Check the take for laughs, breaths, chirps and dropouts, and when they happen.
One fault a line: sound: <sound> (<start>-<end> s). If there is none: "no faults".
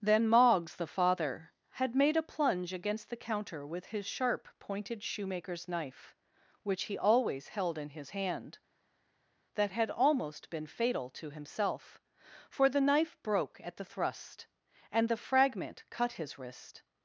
no faults